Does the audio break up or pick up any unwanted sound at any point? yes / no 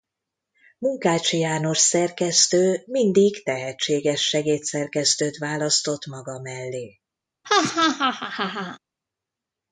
yes